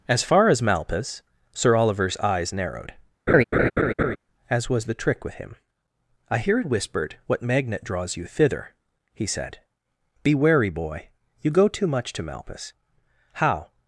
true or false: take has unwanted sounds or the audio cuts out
true